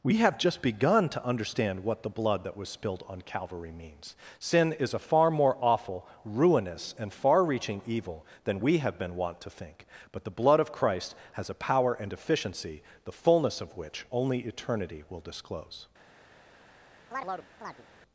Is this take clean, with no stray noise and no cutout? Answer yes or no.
no